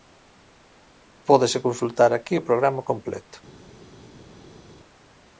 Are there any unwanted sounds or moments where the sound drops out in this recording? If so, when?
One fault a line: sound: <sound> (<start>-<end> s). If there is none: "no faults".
no faults